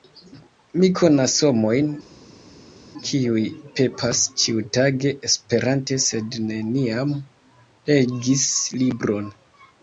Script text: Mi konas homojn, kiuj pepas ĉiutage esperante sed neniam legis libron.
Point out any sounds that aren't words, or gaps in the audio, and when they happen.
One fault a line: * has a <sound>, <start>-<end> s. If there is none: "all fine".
all fine